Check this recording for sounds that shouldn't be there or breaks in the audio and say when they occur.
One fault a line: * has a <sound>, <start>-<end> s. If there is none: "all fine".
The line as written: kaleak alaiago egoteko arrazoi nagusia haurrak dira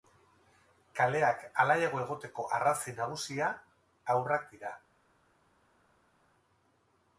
all fine